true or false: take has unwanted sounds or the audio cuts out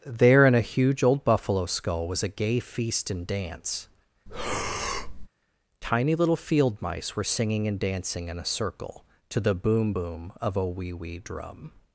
true